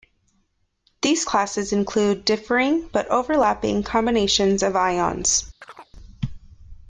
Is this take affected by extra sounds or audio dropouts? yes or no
yes